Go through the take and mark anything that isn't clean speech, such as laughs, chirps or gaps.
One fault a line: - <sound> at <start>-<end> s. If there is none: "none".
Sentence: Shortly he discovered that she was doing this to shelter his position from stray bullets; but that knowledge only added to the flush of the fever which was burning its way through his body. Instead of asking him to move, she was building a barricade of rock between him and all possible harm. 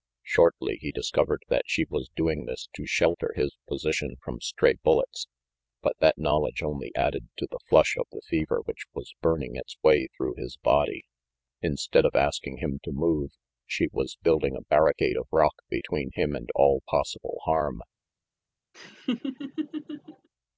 - laugh at 18.7-20.3 s